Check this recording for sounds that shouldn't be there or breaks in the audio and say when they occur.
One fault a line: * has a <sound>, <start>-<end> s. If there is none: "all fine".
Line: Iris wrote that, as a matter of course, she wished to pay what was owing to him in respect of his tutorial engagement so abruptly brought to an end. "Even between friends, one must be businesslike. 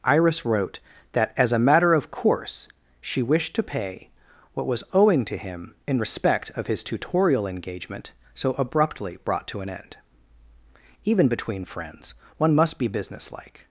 all fine